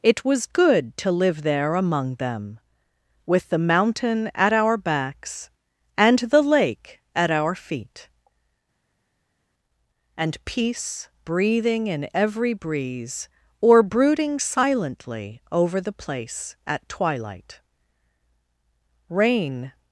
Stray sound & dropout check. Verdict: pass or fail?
pass